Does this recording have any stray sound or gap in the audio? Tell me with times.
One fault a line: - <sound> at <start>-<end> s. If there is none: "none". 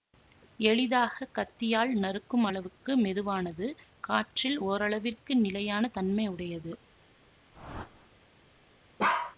- whoosh at 7.5-8.1 s
- bark at 9.0-9.4 s